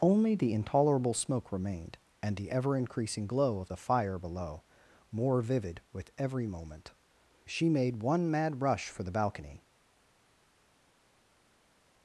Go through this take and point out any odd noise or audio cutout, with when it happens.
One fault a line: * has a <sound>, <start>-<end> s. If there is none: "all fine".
all fine